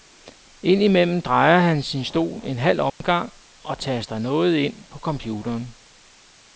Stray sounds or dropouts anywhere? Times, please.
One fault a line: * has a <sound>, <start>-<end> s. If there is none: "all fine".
* has a dropout, 2.9-3.0 s